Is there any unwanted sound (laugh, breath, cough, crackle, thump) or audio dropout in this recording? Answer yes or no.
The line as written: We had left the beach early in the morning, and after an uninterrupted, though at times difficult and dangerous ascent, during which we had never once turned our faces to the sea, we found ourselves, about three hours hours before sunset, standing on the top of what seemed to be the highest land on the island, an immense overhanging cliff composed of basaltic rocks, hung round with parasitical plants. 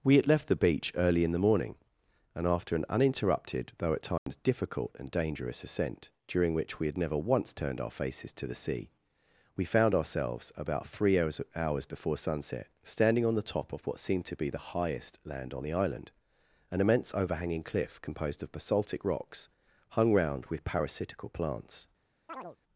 yes